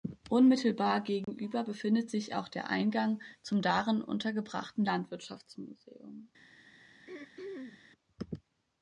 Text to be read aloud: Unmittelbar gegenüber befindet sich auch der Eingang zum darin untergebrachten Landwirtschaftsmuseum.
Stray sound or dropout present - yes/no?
yes